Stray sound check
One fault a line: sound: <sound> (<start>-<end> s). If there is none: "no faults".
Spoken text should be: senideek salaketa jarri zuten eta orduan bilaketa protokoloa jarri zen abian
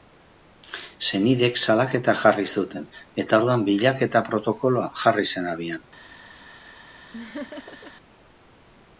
sound: laugh (7.1-7.9 s)